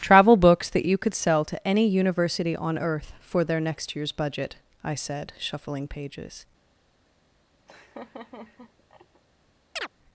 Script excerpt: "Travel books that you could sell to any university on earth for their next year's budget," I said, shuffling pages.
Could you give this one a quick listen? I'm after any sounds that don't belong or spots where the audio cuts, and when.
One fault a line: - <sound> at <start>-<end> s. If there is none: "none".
- laugh at 7.7-9.2 s
- chirp at 9.8-9.9 s